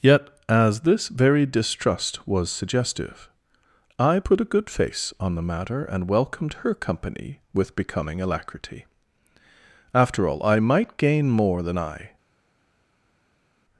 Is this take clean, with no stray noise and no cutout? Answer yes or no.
yes